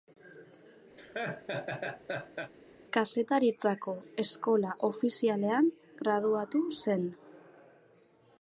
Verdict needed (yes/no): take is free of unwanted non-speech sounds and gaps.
no